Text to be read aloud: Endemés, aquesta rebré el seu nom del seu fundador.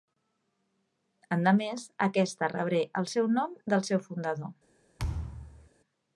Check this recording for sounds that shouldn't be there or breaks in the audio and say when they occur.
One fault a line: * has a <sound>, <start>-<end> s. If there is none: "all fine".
* has a thud, 5.0-5.7 s